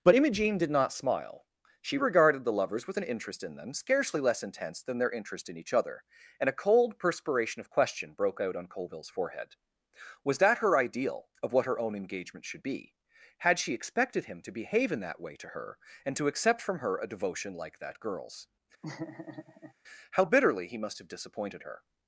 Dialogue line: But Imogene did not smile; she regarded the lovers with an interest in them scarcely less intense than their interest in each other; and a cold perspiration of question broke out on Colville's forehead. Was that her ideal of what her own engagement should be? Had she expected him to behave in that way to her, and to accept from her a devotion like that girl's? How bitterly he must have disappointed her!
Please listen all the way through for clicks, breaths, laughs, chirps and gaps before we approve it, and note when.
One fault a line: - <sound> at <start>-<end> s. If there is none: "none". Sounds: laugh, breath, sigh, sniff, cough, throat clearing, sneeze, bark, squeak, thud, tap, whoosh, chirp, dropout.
- laugh at 18.8-19.7 s